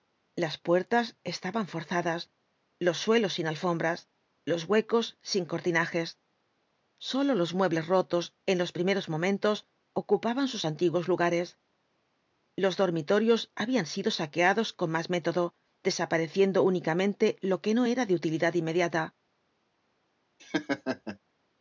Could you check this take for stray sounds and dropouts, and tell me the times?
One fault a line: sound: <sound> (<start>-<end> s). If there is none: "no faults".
sound: laugh (20.4-21.2 s)